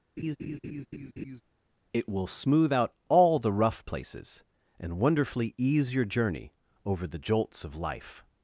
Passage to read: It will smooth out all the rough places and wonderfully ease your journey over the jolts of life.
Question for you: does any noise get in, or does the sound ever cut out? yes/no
yes